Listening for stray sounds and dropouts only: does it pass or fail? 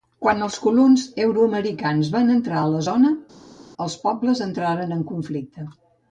pass